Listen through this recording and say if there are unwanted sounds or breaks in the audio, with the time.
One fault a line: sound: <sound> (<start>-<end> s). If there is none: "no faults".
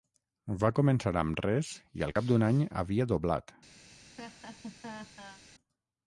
sound: laugh (3.9-5.4 s)